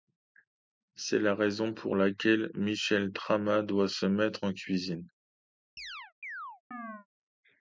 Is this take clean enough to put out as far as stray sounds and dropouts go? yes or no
no